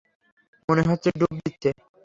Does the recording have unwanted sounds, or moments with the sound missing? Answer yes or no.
no